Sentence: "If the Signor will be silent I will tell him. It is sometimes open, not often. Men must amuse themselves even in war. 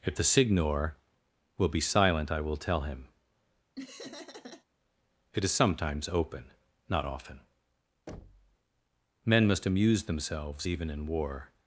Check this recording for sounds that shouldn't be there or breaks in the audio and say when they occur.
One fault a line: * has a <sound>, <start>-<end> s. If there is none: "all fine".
* has a laugh, 3.8-4.7 s
* has a thud, 8.1-8.6 s